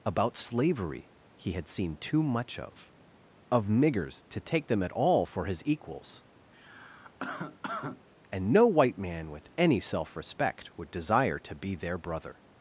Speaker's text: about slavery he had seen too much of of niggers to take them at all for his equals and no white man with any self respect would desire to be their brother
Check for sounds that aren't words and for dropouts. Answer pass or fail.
fail